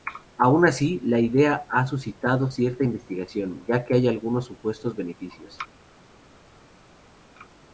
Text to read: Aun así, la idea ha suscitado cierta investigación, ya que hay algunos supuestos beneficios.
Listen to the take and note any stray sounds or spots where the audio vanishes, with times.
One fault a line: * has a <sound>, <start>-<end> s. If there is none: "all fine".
all fine